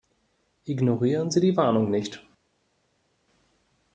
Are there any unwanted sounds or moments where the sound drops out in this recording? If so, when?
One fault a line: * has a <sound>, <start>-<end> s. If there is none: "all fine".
all fine